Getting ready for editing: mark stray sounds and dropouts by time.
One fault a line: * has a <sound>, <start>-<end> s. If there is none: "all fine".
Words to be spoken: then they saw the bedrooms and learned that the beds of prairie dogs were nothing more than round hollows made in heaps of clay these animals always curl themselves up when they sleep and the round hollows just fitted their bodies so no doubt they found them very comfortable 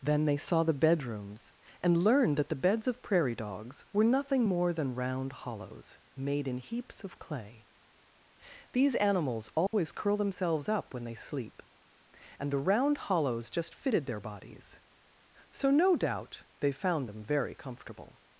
* has a dropout, 9.7-9.7 s